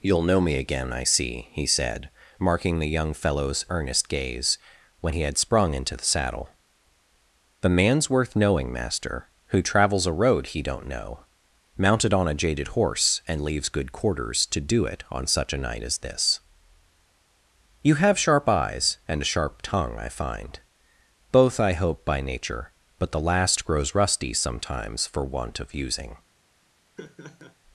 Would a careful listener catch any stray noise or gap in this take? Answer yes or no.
yes